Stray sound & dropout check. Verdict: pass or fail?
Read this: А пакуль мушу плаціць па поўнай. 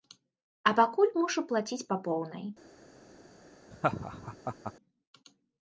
fail